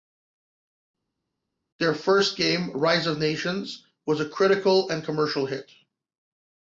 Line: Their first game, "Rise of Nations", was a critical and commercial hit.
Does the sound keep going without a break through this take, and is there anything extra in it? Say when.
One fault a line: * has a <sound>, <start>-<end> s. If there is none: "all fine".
all fine